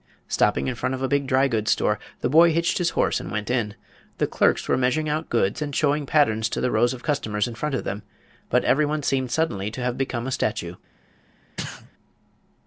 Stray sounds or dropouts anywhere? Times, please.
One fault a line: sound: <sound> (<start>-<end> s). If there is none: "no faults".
sound: sneeze (11.6-11.9 s)